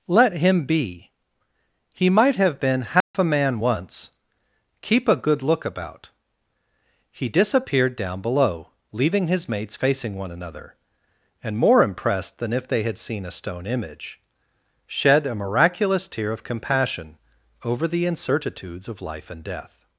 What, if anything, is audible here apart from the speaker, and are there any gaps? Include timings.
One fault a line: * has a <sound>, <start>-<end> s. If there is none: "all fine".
* has a dropout, 3.0-3.1 s